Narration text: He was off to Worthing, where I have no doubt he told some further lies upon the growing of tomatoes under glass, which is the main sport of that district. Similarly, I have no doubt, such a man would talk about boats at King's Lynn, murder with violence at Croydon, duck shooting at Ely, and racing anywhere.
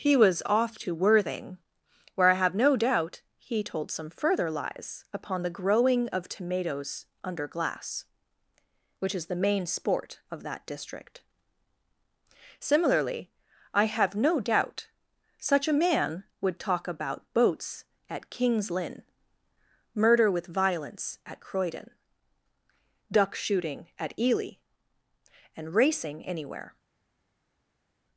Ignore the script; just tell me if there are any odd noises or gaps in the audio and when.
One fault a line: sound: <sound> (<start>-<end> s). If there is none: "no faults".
no faults